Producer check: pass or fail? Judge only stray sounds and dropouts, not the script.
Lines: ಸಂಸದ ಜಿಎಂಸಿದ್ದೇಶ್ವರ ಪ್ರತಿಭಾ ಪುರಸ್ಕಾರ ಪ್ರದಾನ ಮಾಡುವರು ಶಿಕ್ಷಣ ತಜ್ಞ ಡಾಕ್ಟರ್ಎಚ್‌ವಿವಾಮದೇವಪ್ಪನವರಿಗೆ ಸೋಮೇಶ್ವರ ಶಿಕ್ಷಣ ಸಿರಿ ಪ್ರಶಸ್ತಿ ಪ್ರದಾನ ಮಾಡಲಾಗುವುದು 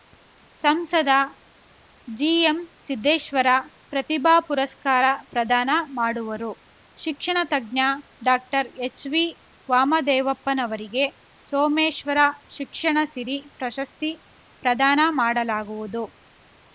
pass